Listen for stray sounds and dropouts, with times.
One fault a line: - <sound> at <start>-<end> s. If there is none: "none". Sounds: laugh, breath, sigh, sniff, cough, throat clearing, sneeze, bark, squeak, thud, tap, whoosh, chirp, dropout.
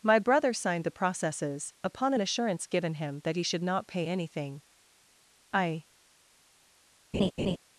- laugh at 7.1-7.6 s